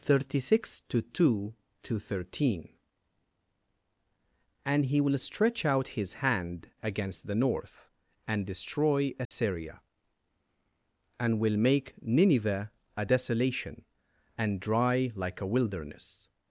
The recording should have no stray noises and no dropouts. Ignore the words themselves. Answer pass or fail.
fail